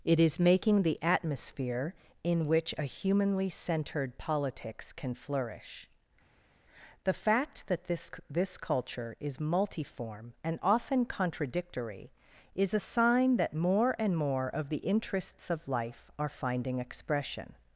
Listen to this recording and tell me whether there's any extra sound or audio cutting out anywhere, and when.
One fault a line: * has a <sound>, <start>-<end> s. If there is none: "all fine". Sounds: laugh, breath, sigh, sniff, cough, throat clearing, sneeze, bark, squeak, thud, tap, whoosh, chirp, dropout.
all fine